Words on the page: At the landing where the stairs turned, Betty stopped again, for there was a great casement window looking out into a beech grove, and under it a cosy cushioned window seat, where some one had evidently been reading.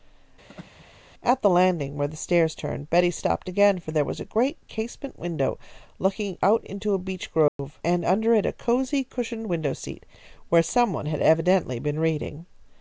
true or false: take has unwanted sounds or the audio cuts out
true